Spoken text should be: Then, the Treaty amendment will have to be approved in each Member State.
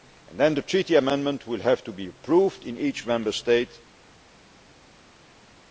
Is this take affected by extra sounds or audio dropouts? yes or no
no